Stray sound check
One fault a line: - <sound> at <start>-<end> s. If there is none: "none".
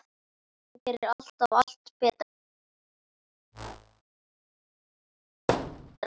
- whoosh at 3.5-4.0 s
- thud at 5.5-6.0 s